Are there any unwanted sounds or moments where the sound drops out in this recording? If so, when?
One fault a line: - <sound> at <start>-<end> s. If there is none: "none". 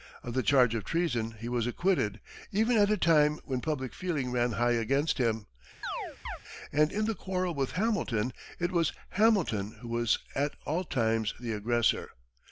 - chirp at 5.8-6.4 s